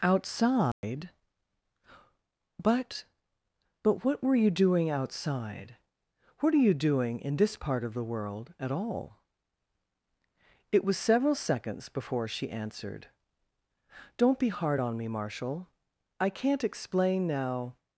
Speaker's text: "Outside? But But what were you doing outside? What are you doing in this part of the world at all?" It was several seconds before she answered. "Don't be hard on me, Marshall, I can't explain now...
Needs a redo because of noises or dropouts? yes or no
yes